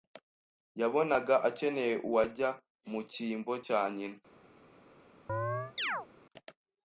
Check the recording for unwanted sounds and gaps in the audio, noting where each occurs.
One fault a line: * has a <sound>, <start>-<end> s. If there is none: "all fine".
* has a chirp, 5.3-6.1 s